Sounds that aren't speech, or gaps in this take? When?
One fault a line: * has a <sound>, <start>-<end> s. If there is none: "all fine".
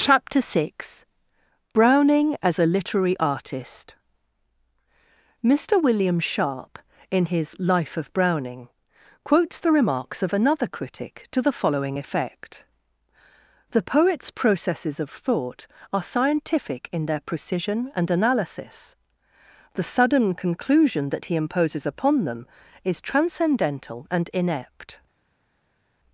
all fine